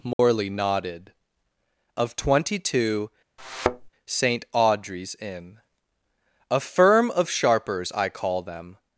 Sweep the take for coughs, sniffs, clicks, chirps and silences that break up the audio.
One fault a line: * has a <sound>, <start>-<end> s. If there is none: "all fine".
* has a dropout, 0.1-0.2 s
* has a thud, 3.4-3.9 s